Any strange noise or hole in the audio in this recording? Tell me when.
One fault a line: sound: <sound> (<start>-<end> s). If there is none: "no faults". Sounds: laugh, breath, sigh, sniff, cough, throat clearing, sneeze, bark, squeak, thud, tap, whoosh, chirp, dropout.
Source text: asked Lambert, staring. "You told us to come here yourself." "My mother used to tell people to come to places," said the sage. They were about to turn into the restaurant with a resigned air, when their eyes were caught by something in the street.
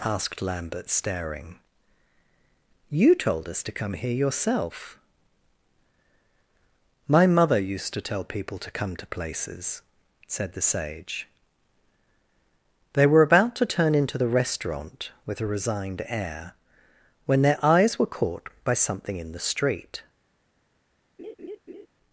sound: laugh (21.2-21.9 s)